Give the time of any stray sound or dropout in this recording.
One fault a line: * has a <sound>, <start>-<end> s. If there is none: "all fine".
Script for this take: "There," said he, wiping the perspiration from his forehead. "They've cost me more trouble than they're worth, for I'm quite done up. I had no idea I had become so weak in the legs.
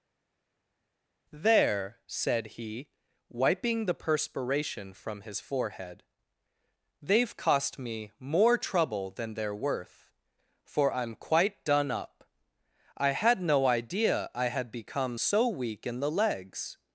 all fine